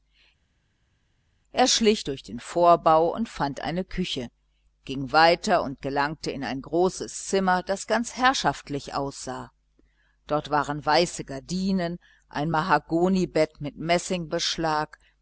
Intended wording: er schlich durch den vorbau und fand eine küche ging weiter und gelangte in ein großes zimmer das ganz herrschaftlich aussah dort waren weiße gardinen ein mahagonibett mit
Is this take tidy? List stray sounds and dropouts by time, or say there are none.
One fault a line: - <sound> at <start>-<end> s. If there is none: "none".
none